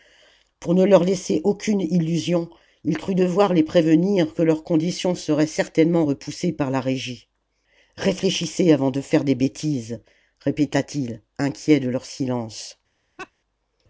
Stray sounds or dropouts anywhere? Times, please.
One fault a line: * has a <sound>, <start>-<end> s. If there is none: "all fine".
* has a laugh, 13.2-13.3 s